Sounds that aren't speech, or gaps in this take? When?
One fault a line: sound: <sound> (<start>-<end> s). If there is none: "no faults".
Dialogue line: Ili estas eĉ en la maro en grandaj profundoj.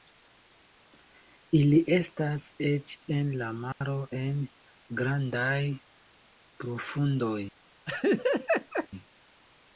sound: dropout (3.7-3.8 s)
sound: laugh (7.9-8.9 s)